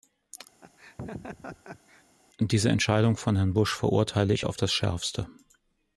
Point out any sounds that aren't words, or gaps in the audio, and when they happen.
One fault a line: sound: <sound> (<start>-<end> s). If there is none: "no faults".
sound: laugh (0.6-2.0 s)